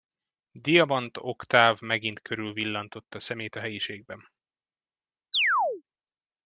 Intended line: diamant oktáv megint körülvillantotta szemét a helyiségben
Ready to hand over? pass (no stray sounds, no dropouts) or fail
fail